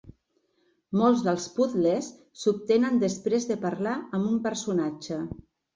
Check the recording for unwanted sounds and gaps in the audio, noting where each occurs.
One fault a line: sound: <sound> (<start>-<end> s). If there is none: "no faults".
no faults